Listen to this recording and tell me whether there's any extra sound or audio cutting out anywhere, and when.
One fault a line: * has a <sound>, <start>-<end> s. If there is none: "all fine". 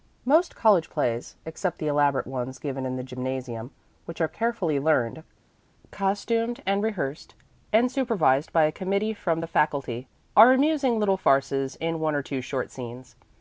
all fine